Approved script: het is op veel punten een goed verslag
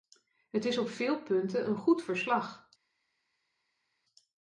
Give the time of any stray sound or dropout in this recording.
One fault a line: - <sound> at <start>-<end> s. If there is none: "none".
none